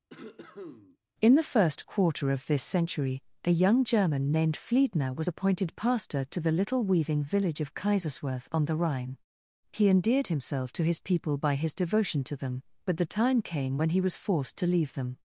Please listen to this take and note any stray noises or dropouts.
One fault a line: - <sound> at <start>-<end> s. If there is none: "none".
- cough at 0.1-1.0 s